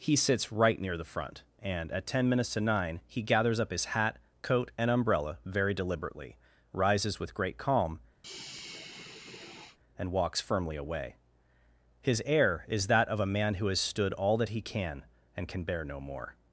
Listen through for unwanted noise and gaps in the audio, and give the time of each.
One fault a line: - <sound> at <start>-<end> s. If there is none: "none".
- sigh at 8.2-9.8 s